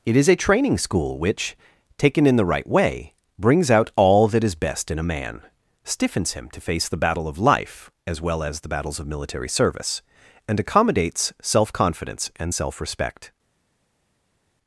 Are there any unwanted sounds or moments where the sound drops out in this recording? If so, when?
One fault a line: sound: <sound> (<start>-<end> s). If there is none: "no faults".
no faults